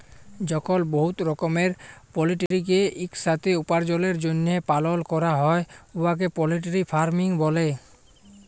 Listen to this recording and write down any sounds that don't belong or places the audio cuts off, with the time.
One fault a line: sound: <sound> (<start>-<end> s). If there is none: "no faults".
sound: dropout (2.5-2.5 s)